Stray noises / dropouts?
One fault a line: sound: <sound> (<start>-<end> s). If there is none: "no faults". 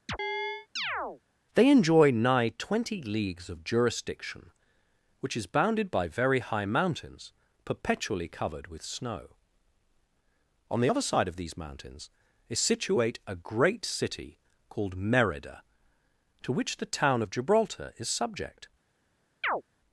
sound: chirp (0.1-1.2 s)
sound: chirp (19.4-19.6 s)